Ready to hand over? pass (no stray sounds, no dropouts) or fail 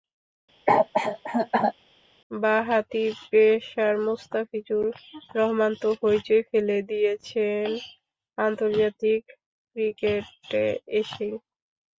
fail